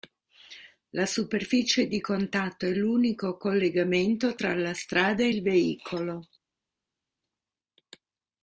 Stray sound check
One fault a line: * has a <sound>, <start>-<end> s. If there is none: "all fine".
all fine